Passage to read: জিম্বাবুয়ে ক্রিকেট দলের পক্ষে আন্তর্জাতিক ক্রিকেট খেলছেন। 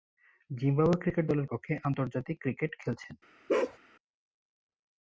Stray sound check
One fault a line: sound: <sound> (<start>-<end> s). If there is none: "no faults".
sound: bark (3.5-3.8 s)